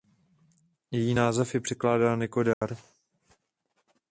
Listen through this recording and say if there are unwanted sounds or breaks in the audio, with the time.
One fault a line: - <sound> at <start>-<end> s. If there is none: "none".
- dropout at 2.5-2.6 s